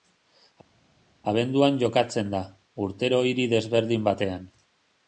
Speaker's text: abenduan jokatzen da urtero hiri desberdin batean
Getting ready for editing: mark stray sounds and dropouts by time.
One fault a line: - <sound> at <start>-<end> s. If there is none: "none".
none